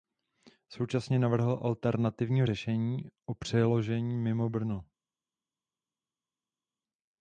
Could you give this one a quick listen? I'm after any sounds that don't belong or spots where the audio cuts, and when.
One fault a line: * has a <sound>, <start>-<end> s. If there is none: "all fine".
all fine